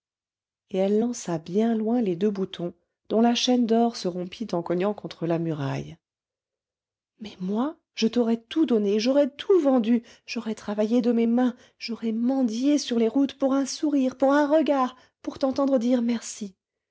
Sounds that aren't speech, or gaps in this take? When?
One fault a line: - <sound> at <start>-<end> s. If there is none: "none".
none